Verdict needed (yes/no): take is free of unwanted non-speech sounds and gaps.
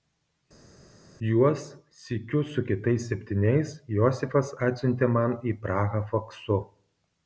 yes